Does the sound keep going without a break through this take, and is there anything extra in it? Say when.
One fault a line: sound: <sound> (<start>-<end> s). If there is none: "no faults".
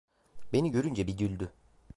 no faults